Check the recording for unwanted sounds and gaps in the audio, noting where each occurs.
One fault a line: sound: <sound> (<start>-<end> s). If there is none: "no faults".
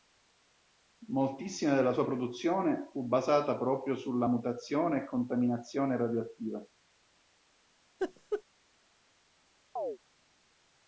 sound: laugh (8.0-8.4 s)
sound: chirp (9.8-10.0 s)